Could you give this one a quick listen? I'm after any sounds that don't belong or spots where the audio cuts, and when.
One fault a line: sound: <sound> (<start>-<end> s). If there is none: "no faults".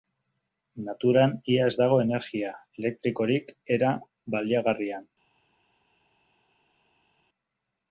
no faults